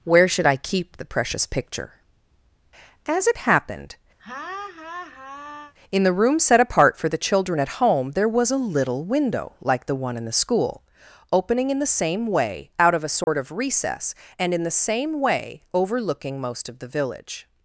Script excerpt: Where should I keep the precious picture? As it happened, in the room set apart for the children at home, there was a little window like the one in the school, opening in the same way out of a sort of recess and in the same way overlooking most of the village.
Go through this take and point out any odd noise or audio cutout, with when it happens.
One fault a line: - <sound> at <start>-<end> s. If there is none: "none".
- laugh at 4.2-5.7 s
- dropout at 13.2-13.3 s